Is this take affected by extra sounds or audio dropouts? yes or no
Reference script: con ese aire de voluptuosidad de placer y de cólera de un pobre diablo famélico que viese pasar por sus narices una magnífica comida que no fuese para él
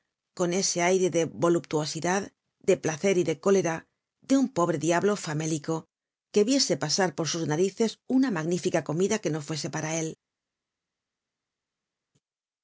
no